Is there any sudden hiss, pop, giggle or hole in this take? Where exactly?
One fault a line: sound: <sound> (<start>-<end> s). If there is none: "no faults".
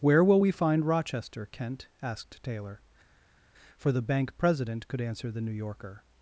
no faults